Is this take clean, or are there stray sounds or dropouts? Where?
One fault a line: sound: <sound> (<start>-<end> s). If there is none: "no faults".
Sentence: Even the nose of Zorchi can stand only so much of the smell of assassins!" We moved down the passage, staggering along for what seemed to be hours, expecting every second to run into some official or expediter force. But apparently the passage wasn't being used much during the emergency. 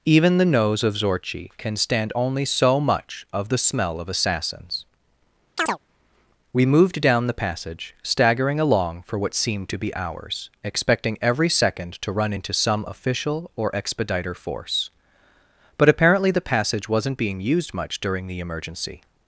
sound: chirp (5.6-5.8 s)